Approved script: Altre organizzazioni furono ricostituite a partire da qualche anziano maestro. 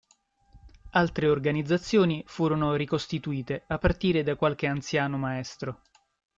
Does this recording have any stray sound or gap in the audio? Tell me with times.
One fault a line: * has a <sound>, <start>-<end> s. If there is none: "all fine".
all fine